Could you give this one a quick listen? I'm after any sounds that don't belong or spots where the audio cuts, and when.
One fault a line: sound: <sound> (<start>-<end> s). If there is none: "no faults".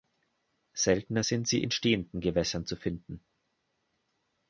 no faults